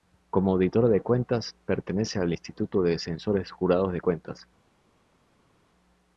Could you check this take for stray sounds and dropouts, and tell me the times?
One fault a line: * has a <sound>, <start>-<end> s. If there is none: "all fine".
all fine